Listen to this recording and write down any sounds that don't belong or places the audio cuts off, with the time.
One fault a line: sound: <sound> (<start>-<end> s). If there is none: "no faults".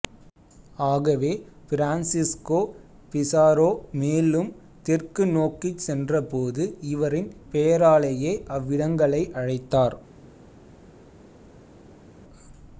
no faults